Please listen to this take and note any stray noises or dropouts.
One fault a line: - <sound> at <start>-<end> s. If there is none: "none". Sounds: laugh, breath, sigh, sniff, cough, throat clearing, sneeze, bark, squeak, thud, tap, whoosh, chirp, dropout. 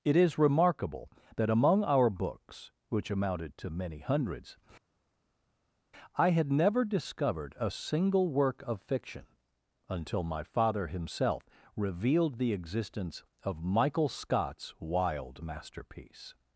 none